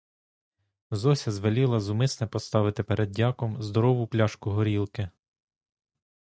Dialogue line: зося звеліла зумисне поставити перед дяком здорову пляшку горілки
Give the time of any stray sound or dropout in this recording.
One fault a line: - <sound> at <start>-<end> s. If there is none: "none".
none